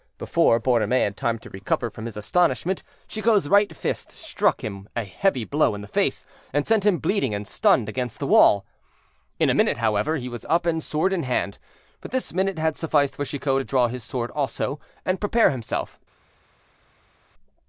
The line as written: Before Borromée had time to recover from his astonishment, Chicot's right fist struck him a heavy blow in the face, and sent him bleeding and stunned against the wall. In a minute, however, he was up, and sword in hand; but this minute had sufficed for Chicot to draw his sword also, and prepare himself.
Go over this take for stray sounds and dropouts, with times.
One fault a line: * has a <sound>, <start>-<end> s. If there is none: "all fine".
all fine